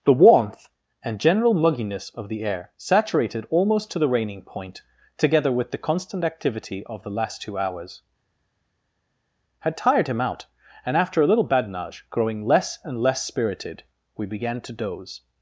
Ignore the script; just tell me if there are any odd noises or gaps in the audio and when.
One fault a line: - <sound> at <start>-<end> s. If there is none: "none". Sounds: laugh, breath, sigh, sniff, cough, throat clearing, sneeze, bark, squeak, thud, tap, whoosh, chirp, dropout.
none